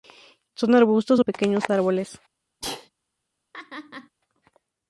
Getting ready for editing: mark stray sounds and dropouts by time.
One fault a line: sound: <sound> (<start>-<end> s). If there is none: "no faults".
sound: sneeze (2.6-2.9 s)
sound: laugh (3.5-4.1 s)